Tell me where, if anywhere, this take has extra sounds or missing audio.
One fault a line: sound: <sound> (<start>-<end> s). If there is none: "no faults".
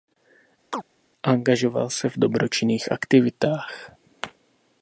sound: chirp (0.7-0.8 s)